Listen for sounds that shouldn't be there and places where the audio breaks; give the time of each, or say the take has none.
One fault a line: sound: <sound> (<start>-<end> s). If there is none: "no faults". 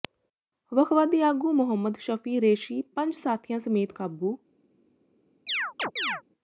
sound: chirp (5.5-6.2 s)